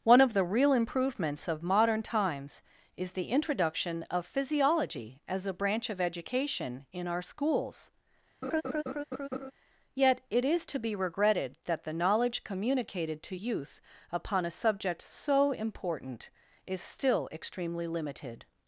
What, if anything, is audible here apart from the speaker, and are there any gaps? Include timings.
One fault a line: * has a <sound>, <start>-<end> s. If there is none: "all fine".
* has a laugh, 8.4-9.5 s